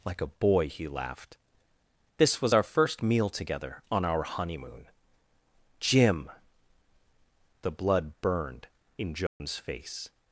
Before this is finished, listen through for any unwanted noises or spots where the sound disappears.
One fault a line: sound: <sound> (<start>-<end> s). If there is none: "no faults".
sound: dropout (9.3-9.4 s)